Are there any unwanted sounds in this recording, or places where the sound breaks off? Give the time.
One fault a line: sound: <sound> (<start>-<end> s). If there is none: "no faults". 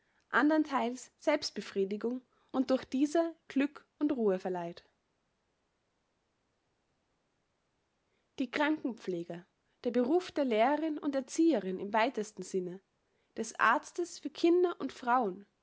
no faults